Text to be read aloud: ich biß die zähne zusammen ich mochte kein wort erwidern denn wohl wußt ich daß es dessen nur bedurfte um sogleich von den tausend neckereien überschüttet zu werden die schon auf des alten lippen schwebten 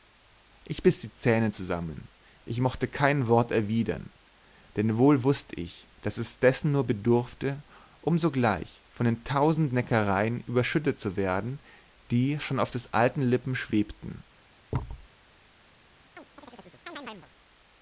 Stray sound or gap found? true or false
true